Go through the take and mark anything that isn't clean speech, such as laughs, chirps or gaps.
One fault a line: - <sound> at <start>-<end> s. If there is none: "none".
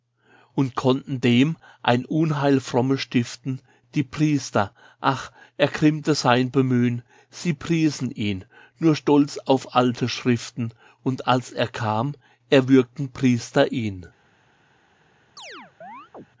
- chirp at 15.4-16.3 s